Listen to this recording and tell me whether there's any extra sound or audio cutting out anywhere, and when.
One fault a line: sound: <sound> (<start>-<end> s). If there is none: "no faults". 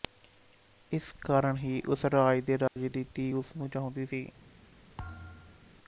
sound: dropout (2.7-2.8 s)
sound: thud (5.0-5.7 s)